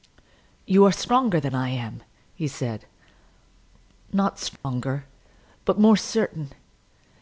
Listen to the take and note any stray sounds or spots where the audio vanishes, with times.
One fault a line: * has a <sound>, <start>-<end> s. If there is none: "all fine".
* has a dropout, 4.6-4.6 s